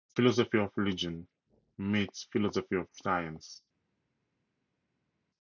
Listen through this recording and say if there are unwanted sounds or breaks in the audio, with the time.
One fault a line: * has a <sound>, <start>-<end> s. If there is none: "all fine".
all fine